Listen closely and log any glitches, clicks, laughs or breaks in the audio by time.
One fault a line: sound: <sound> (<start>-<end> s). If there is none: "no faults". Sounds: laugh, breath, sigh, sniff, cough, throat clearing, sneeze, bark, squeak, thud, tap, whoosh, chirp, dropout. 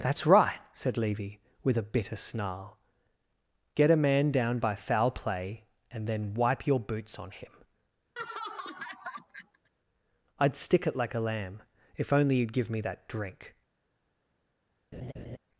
sound: laugh (8.2-9.7 s)
sound: laugh (14.9-15.4 s)